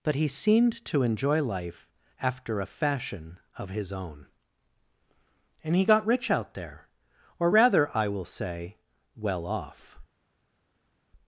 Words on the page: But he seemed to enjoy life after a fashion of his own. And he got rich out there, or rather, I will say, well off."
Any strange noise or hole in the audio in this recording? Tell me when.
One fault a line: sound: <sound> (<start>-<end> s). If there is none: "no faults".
no faults